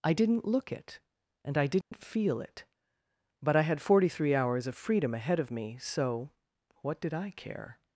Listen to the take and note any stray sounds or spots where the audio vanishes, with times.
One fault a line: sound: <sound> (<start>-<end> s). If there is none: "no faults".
sound: dropout (1.8-1.9 s)